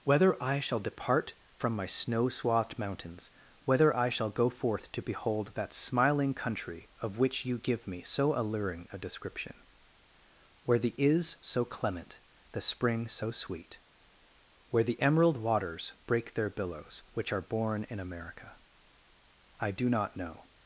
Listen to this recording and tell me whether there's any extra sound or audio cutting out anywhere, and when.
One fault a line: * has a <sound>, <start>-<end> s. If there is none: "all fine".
all fine